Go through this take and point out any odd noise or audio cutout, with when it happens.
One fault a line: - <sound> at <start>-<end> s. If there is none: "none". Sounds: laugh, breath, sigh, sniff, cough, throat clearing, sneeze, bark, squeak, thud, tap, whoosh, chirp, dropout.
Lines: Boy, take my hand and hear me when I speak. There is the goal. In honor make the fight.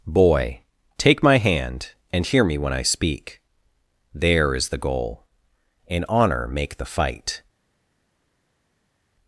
none